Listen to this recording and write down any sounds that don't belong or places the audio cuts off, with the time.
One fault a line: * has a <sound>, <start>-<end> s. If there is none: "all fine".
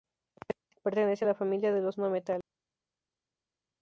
all fine